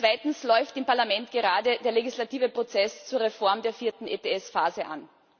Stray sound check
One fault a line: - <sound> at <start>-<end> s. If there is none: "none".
none